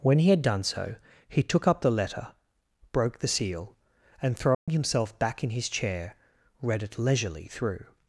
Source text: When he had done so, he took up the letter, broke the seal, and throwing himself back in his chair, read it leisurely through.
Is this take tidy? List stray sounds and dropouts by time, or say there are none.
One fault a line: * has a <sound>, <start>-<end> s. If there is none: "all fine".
* has a dropout, 4.5-4.7 s